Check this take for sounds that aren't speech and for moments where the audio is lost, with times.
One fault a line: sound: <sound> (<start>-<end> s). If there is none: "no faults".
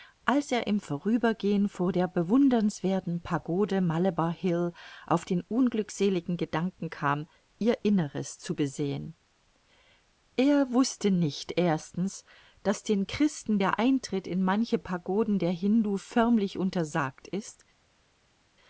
no faults